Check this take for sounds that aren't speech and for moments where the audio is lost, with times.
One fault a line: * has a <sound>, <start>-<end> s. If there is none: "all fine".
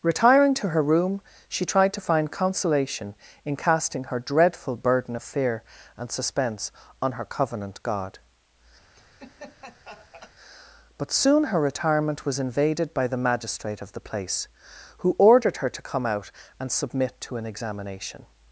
* has a laugh, 8.9-10.3 s